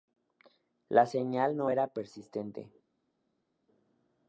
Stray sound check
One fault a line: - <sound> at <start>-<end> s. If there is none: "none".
none